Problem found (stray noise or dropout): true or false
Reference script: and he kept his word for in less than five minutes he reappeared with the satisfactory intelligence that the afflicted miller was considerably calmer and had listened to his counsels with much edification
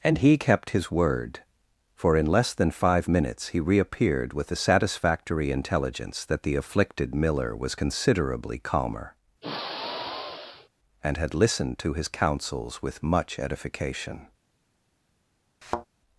true